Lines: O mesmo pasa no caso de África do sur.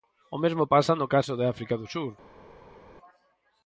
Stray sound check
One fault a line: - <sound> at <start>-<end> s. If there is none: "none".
none